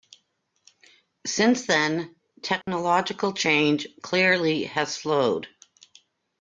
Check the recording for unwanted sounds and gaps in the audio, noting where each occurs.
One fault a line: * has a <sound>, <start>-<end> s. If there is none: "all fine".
* has a dropout, 2.6-2.7 s